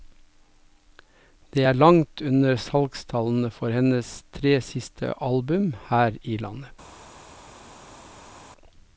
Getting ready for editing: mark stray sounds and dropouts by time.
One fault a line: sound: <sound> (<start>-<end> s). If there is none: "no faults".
no faults